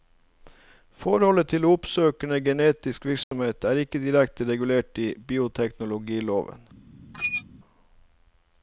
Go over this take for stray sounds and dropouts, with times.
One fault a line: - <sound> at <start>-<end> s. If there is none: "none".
- dropout at 3.2-3.3 s
- squeak at 7.1-7.4 s